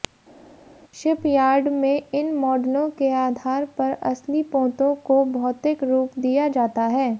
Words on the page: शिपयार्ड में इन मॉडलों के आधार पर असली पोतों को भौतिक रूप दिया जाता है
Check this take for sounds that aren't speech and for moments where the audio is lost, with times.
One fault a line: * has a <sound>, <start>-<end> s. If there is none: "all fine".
all fine